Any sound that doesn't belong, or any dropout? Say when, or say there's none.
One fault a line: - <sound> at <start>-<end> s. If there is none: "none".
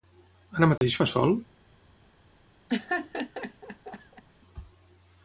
- dropout at 0.8-0.8 s
- laugh at 2.7-4.2 s